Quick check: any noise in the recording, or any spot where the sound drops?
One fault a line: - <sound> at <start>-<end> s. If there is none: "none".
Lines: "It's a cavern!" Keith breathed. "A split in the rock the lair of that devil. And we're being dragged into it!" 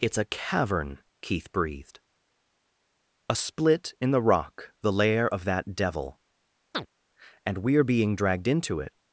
- chirp at 6.7-6.9 s